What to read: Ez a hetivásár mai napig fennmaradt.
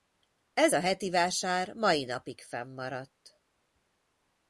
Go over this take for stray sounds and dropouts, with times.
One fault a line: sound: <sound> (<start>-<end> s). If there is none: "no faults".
no faults